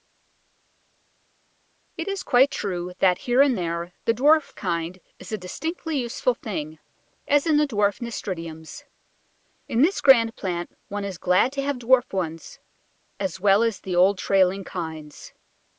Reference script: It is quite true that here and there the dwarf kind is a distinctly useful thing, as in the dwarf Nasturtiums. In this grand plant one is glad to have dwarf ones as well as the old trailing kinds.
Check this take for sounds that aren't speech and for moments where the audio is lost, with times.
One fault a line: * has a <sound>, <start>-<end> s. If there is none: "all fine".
all fine